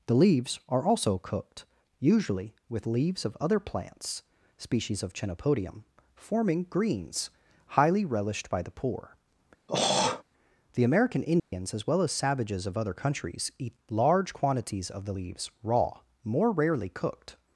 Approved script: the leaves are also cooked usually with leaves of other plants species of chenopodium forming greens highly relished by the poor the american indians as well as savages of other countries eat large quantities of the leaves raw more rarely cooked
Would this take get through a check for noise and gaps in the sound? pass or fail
fail